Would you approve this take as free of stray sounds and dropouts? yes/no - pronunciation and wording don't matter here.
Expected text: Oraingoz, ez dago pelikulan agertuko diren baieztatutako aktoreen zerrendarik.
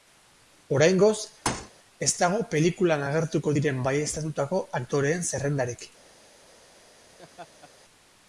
no